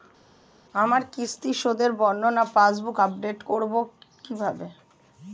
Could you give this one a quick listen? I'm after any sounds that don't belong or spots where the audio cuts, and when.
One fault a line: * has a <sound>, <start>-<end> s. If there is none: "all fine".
all fine